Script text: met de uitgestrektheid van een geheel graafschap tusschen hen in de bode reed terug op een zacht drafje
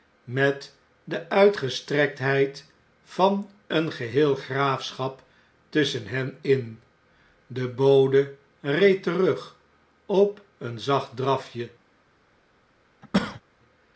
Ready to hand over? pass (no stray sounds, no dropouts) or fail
fail